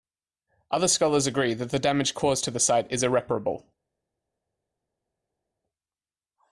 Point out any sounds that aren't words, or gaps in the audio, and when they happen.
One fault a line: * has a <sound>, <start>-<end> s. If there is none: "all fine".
all fine